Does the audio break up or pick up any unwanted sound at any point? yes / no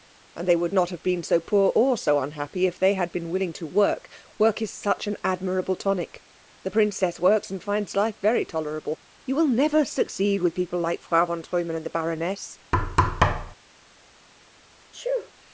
yes